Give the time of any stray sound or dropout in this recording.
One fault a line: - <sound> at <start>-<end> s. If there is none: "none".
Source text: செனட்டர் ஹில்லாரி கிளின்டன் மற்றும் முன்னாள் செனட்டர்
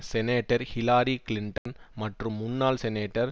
- dropout at 1.6-1.7 s